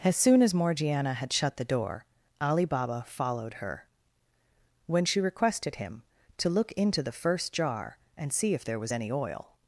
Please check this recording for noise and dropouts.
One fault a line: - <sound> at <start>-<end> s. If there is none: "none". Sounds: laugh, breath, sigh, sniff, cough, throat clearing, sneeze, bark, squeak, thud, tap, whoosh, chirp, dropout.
none